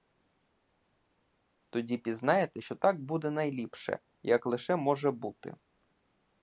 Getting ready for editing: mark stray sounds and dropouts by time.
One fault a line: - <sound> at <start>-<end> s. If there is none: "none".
none